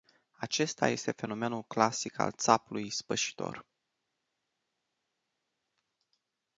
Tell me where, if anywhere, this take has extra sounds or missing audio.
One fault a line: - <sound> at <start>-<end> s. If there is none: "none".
none